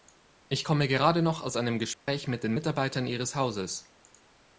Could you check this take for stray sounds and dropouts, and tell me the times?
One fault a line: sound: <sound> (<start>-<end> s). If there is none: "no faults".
sound: dropout (1.9-2.1 s)